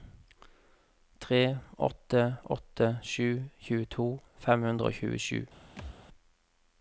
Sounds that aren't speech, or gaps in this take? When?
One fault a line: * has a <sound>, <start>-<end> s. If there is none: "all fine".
* has a thud, 5.8-6.0 s